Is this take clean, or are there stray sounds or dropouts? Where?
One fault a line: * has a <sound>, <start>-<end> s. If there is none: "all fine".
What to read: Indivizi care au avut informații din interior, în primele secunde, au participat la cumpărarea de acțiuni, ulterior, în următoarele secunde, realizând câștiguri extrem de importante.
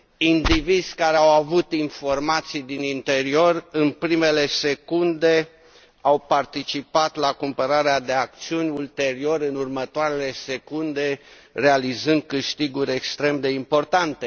all fine